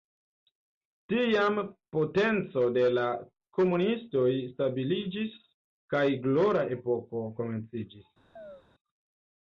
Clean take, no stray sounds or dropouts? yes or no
no